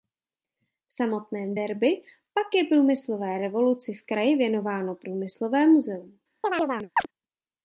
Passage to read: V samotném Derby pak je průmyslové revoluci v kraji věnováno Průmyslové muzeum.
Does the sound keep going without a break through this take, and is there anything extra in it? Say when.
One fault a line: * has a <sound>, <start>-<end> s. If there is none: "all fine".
* has a chirp, 6.4-7.1 s